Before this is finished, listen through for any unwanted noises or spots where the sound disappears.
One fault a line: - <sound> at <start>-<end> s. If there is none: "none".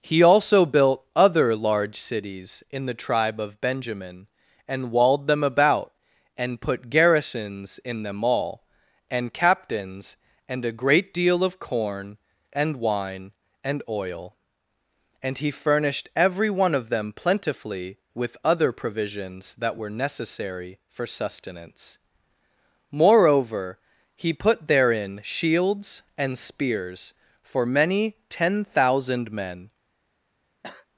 - cough at 30.6-30.9 s